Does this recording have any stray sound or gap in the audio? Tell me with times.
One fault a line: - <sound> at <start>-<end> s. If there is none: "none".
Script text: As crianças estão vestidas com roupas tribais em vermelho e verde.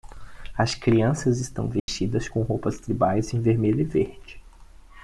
- dropout at 1.8-1.9 s